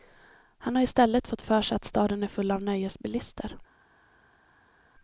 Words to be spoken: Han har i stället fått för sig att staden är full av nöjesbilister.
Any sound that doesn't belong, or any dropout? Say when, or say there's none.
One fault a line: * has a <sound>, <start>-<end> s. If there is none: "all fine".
all fine